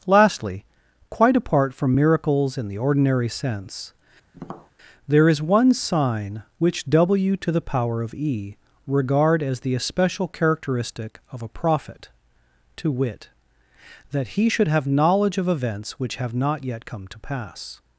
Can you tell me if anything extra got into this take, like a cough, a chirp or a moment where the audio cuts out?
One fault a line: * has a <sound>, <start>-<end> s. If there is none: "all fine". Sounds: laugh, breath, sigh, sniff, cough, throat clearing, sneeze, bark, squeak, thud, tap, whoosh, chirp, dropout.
* has a tap, 4.3-4.7 s